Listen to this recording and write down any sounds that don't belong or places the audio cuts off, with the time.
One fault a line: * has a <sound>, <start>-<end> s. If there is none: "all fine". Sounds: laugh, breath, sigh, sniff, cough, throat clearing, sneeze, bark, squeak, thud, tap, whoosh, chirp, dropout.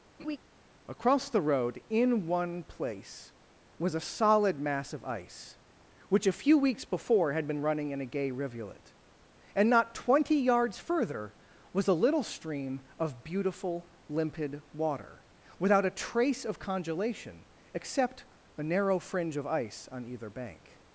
* has a laugh, 0.2-0.4 s